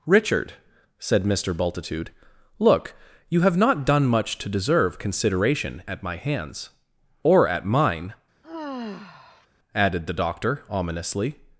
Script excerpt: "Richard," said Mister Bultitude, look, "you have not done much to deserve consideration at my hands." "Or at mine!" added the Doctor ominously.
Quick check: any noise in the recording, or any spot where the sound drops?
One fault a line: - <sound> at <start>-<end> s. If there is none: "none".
- sigh at 8.4-9.5 s